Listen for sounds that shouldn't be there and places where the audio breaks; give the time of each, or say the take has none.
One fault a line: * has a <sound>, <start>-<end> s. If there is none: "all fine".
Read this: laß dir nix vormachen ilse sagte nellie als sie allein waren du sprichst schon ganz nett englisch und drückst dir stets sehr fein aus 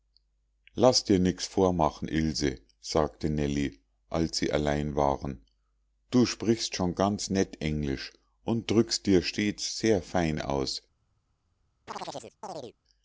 * has a chirp, 11.9-12.8 s